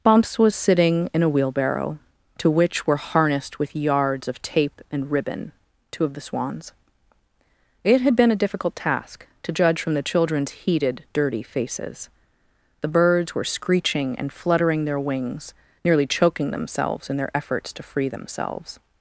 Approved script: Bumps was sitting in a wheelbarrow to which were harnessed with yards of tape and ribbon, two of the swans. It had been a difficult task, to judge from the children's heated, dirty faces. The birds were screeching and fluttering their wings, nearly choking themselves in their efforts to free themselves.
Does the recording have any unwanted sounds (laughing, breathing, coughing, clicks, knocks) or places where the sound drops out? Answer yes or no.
no